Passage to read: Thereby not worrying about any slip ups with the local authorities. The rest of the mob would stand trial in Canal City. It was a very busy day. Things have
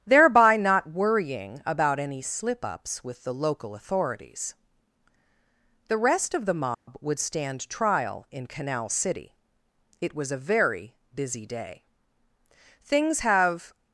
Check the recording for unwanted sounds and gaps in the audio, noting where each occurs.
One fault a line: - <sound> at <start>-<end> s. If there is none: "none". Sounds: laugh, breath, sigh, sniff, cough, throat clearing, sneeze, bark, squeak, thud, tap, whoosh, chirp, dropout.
- dropout at 6.7-6.9 s